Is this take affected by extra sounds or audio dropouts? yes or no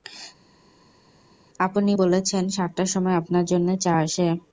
no